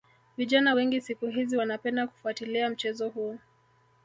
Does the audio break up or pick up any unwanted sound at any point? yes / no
no